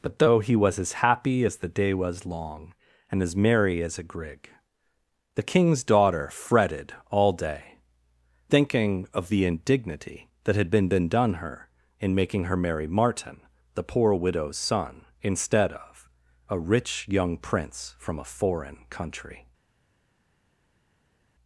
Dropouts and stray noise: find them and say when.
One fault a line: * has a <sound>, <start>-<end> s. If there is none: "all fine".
all fine